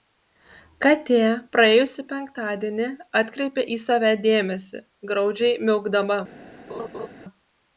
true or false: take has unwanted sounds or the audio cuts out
true